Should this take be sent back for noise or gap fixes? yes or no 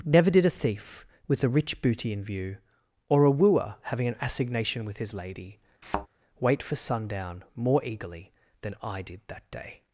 yes